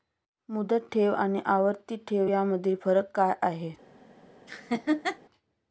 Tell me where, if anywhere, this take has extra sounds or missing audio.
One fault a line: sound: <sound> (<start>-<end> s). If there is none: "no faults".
sound: laugh (4.5-5.2 s)